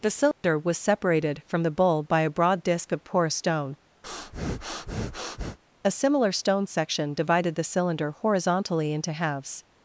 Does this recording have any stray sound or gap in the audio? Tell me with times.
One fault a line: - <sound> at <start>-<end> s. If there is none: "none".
- dropout at 0.3-0.4 s
- breath at 4.0-5.6 s